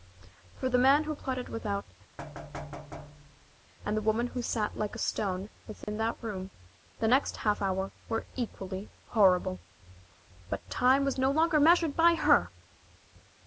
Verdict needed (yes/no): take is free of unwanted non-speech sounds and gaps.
no